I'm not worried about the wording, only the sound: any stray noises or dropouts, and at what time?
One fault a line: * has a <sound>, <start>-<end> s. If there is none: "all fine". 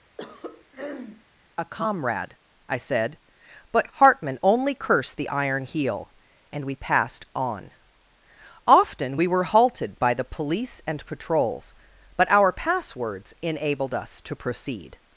* has a throat clearing, 0.2-1.2 s